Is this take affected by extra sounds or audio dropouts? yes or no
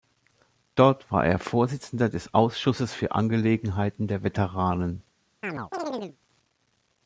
yes